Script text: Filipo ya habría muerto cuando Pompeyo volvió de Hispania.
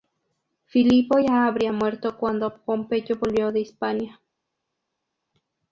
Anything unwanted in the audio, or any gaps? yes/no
no